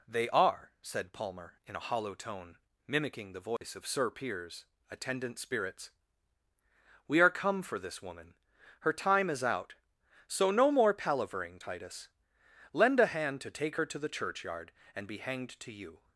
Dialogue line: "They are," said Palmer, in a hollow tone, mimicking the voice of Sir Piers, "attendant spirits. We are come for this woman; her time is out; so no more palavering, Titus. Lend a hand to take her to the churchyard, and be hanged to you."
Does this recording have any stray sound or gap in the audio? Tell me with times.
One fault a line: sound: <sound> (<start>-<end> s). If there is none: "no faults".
sound: dropout (3.6-3.6 s)